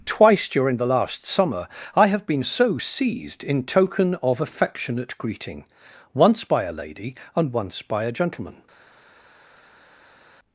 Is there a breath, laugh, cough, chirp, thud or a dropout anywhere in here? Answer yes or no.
no